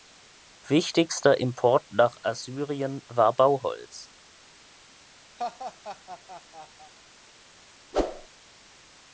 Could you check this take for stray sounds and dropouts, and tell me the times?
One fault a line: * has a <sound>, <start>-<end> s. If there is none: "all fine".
* has a laugh, 5.4-6.9 s
* has a whoosh, 7.9-8.3 s